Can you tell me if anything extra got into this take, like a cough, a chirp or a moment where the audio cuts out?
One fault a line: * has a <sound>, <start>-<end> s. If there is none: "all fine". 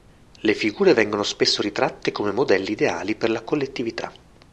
all fine